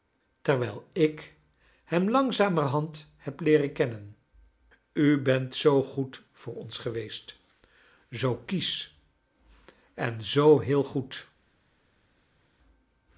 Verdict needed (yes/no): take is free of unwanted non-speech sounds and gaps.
yes